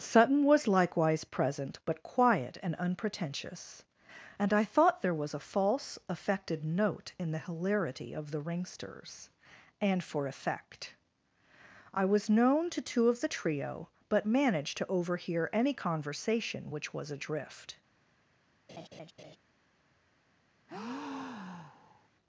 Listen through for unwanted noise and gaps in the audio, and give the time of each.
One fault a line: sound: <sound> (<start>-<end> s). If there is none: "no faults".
sound: laugh (18.7-19.4 s)
sound: breath (20.7-22.1 s)